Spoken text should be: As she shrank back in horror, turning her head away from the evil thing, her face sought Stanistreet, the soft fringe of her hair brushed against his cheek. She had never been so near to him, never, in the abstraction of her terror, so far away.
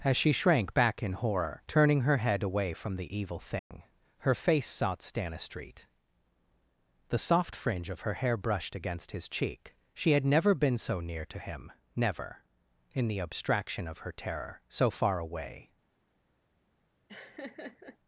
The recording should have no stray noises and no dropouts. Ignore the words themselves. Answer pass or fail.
fail